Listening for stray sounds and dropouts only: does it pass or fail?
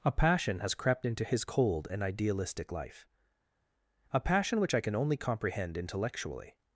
pass